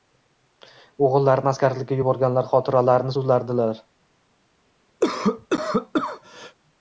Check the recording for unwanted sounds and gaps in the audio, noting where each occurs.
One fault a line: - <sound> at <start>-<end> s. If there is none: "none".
- cough at 5.0-6.5 s